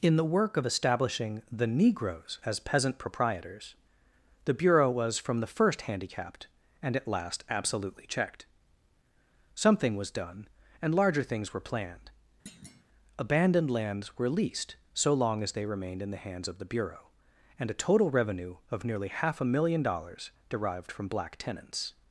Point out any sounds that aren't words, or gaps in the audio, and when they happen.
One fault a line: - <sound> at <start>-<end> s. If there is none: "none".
- thud at 12.5-12.8 s